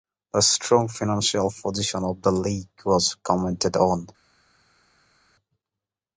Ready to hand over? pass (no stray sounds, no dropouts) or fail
pass